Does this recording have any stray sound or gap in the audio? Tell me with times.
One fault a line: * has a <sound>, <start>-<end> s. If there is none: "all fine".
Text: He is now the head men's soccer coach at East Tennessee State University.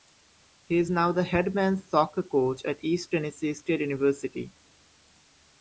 all fine